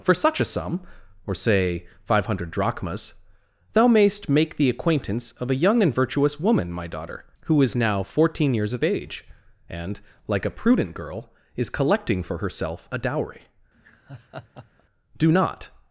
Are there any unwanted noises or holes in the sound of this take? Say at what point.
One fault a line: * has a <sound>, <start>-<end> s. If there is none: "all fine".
* has a laugh, 13.7-14.8 s